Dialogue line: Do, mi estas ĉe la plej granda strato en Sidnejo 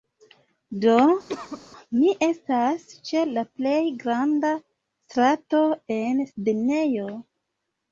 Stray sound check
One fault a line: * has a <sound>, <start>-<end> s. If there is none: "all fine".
* has a cough, 1.3-1.6 s